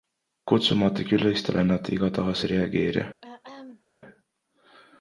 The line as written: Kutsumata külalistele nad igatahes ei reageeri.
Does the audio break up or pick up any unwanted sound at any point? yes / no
yes